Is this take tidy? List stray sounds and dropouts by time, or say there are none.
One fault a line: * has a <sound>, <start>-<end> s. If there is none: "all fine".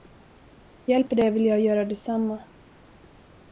all fine